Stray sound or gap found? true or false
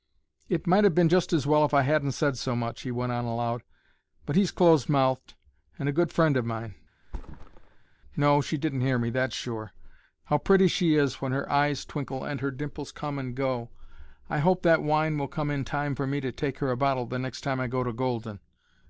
true